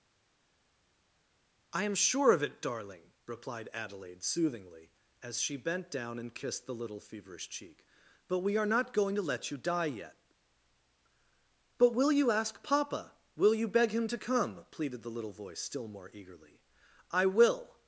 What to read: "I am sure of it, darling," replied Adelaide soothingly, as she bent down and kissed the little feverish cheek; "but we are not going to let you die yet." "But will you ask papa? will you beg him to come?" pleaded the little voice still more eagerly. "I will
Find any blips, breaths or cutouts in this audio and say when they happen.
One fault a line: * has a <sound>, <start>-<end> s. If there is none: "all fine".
all fine